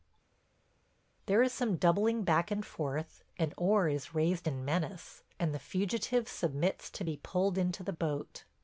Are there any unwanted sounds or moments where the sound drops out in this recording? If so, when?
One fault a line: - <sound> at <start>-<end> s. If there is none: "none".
none